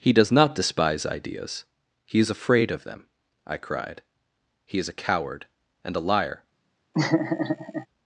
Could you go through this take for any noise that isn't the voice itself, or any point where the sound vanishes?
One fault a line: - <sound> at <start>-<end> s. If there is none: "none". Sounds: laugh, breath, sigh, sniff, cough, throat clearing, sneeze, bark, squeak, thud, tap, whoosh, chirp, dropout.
- laugh at 6.9-7.9 s